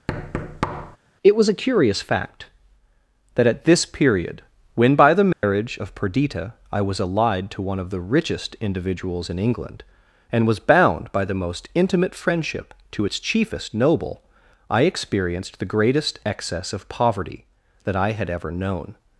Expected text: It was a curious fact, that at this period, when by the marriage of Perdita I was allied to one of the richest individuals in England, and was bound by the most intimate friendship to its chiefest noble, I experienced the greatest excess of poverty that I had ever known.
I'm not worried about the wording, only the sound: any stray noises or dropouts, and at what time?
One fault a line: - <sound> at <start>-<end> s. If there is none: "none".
- thud at 0.1-1.0 s
- dropout at 5.3-5.4 s